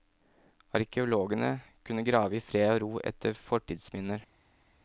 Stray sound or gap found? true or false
false